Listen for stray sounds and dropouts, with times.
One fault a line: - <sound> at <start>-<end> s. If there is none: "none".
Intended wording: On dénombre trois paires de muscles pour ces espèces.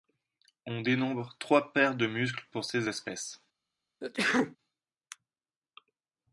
- sneeze at 4.0-4.6 s